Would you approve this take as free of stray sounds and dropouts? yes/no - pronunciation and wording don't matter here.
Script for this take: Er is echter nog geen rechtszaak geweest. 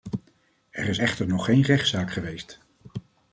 yes